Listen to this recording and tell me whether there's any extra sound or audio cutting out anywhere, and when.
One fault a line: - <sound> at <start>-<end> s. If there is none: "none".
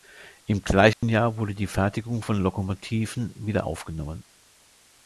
- dropout at 0.9-1.0 s